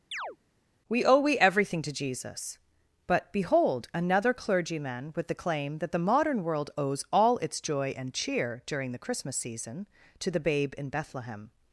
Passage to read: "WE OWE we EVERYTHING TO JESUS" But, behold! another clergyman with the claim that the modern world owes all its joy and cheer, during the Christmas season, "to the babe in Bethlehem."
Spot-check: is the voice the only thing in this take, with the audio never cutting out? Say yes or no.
no